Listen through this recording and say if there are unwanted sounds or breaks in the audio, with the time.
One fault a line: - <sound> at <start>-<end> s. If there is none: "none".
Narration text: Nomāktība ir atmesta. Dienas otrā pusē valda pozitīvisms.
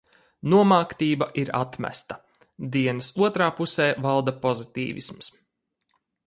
none